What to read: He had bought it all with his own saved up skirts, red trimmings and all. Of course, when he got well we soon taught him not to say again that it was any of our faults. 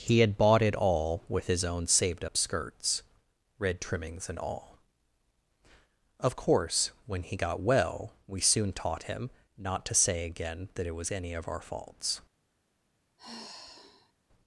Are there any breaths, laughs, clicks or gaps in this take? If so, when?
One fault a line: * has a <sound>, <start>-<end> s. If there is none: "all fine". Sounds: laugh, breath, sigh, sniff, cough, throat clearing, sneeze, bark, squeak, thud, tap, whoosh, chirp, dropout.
* has a sigh, 13.2-14.1 s